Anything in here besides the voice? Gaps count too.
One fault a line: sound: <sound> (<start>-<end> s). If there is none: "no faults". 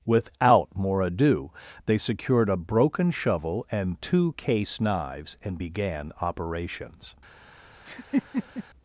sound: laugh (7.9-8.6 s)